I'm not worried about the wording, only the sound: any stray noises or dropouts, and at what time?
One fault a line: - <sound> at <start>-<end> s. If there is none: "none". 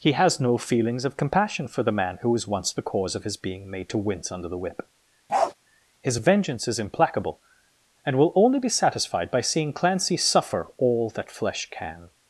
- bark at 5.3-5.5 s